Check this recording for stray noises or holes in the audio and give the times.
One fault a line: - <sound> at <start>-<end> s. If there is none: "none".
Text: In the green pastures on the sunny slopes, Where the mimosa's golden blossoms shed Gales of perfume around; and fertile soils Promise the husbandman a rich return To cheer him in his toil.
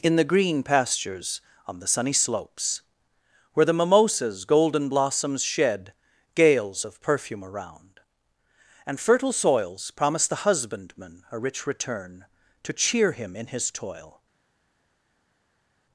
none